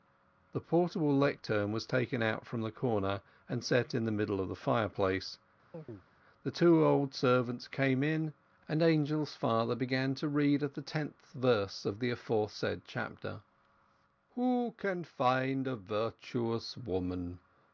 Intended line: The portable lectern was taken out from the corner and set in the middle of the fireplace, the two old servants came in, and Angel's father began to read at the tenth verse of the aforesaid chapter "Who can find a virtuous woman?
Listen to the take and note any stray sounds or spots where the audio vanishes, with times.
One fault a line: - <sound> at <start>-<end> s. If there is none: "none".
- chirp at 5.7-6.1 s